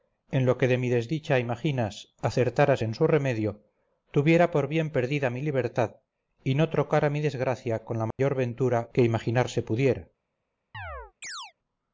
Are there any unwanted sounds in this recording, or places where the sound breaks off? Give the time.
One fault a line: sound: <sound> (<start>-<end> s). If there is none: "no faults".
sound: dropout (8.1-8.2 s)
sound: chirp (10.7-11.5 s)